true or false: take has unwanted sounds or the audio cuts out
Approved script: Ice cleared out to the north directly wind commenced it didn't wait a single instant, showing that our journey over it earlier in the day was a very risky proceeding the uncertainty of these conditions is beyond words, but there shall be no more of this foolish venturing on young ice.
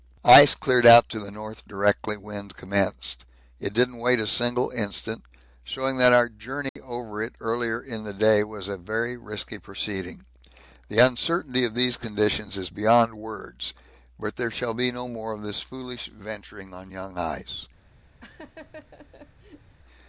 true